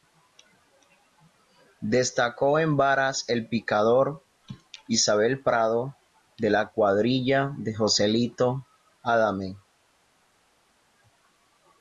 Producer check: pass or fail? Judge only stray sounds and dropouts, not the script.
pass